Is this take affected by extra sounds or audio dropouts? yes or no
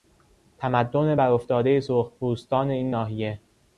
no